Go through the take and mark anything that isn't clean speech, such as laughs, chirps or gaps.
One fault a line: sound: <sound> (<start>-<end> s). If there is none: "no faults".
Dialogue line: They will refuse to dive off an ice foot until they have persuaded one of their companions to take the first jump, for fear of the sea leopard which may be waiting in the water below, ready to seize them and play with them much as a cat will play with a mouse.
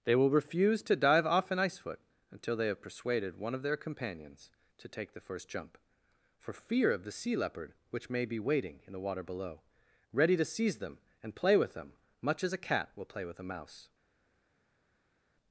no faults